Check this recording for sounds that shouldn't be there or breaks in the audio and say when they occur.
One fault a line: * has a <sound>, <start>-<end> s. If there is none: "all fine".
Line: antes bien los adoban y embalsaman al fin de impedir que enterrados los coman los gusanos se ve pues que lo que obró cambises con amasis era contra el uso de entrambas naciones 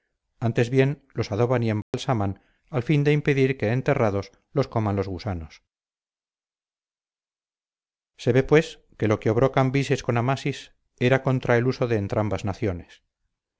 * has a dropout, 1.8-1.9 s